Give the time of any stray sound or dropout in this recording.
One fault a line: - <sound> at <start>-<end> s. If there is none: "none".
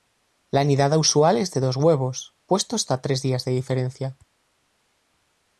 none